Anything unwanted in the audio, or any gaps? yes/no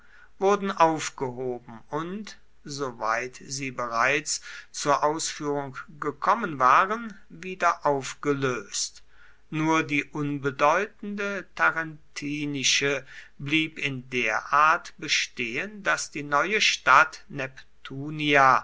no